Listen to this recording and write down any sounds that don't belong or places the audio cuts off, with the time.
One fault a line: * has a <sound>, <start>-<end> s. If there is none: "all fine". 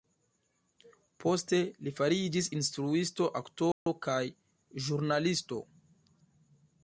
* has a dropout, 3.7-3.9 s